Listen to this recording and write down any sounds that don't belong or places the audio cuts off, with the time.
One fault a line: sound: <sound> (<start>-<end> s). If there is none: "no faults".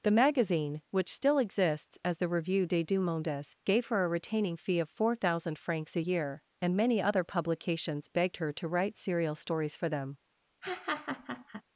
sound: laugh (10.6-11.6 s)